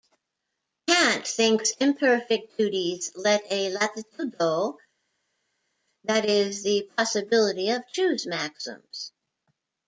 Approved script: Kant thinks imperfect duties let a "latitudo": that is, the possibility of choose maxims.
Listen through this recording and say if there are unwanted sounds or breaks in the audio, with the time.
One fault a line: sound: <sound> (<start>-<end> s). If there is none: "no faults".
no faults